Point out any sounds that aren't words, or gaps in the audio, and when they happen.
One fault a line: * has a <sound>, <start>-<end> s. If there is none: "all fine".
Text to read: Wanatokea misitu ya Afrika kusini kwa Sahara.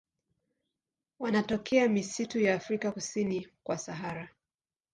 all fine